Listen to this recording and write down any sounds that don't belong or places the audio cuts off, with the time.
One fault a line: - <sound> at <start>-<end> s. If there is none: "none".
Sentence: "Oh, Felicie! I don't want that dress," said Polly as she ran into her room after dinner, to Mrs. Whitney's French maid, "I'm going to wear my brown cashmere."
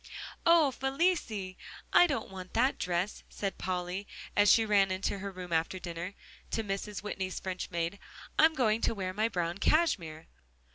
none